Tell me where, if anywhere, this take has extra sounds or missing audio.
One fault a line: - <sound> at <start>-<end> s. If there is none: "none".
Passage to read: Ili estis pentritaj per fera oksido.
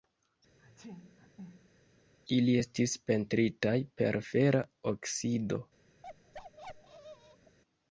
- sneeze at 0.6-1.8 s
- bark at 6.0-7.6 s